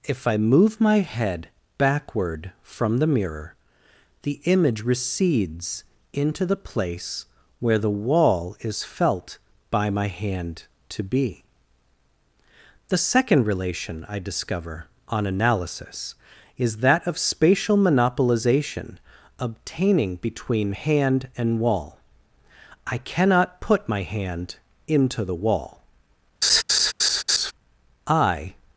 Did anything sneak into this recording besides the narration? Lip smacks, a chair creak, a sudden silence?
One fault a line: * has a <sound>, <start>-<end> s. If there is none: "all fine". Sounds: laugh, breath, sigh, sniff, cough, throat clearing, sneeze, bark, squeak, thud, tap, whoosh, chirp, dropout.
* has a laugh, 26.4-27.5 s